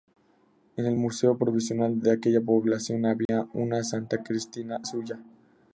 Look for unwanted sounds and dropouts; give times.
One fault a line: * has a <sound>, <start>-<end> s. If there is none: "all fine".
* has a dropout, 3.3-3.3 s